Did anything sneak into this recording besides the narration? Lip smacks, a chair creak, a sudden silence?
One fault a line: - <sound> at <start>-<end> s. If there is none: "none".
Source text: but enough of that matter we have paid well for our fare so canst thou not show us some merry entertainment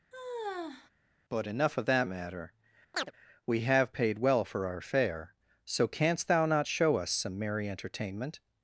- sigh at 0.1-0.9 s
- chirp at 2.9-3.1 s